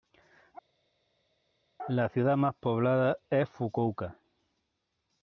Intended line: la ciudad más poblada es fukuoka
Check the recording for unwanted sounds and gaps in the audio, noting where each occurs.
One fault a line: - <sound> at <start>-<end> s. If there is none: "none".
none